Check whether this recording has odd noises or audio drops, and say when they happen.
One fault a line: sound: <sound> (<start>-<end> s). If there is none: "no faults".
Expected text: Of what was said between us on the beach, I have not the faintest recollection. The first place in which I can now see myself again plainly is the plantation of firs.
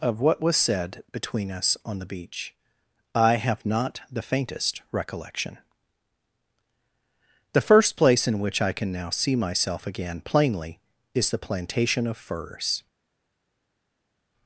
no faults